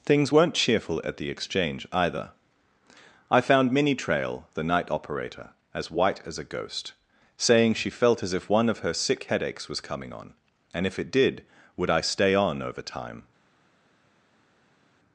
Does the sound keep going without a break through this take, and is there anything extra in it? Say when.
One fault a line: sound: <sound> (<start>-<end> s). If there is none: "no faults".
no faults